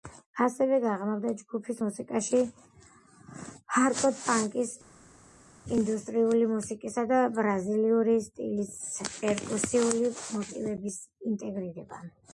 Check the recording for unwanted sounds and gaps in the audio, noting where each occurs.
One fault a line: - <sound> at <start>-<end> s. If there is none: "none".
none